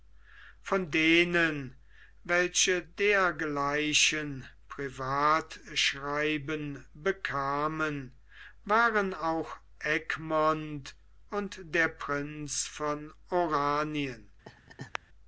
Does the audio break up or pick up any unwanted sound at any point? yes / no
yes